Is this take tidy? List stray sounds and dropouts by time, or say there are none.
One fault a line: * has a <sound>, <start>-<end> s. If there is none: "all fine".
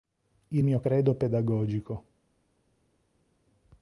all fine